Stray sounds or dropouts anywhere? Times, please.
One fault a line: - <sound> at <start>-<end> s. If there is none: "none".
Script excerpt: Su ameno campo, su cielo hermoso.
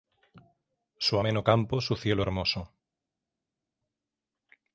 none